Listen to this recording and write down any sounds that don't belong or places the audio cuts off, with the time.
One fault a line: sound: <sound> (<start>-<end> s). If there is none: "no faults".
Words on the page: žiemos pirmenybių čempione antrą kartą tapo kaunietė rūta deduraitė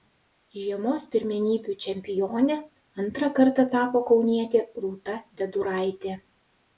no faults